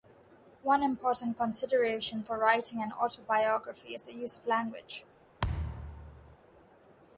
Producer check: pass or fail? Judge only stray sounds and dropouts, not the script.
fail